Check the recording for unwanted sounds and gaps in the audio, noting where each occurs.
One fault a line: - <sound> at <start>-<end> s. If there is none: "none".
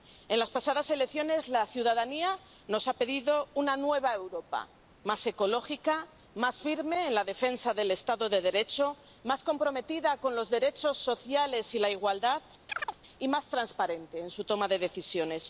- chirp at 12.7-13.0 s